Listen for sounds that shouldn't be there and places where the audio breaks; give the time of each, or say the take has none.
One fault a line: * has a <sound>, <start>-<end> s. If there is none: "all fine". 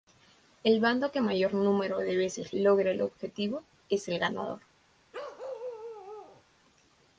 * has a bark, 5.1-6.4 s